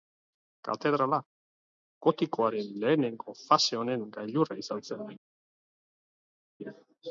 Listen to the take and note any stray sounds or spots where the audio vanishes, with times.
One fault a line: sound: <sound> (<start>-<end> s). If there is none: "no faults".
no faults